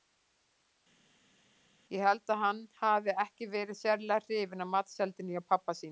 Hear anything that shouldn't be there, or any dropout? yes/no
no